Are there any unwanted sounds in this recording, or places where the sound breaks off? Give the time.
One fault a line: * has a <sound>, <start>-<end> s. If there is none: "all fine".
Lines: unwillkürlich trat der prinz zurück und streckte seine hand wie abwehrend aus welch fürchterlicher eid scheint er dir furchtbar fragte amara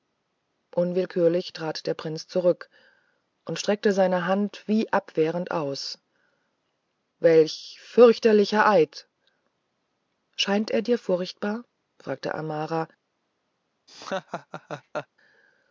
* has a laugh, 13.9-15.1 s